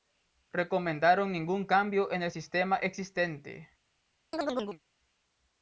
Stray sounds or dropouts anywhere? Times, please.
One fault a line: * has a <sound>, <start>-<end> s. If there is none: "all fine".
* has a chirp, 4.3-4.8 s